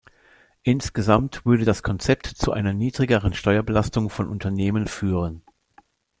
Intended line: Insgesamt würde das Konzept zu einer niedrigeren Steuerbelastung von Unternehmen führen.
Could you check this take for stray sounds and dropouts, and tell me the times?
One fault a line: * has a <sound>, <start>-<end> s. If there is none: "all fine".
all fine